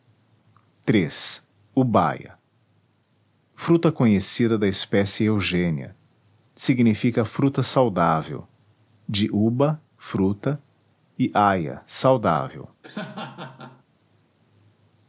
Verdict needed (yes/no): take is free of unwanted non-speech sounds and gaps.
no